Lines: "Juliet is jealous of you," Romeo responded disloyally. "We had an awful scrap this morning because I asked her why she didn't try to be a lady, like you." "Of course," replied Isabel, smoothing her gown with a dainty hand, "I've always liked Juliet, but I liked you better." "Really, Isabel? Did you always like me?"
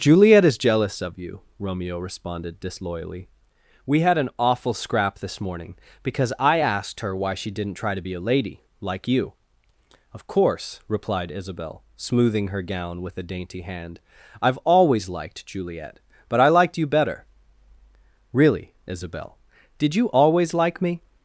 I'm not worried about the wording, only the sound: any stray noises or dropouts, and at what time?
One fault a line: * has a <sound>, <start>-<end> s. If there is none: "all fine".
all fine